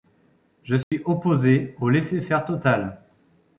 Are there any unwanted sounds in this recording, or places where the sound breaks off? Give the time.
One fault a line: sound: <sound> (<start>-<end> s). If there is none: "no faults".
sound: dropout (0.8-0.9 s)